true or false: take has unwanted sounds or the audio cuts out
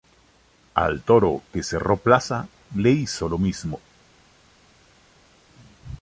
false